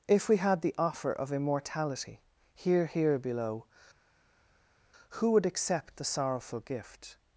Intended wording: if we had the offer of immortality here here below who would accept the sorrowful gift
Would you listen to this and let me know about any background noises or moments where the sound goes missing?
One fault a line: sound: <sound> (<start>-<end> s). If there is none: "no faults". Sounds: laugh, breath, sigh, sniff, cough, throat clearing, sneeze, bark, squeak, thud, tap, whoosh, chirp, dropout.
no faults